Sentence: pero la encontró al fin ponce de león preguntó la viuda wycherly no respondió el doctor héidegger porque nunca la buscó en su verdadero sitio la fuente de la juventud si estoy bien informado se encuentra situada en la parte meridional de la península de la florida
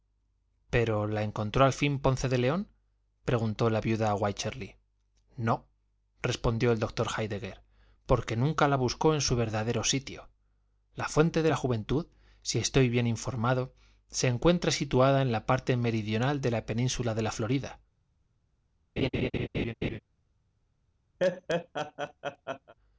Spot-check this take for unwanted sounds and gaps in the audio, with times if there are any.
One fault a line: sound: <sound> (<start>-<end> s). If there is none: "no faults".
sound: laugh (19.0-20.0 s)
sound: laugh (21.2-22.7 s)